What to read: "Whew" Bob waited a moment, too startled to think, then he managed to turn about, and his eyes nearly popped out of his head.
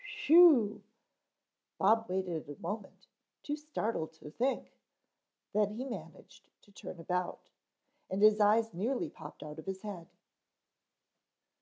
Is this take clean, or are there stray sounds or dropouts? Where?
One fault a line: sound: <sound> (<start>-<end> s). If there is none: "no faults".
no faults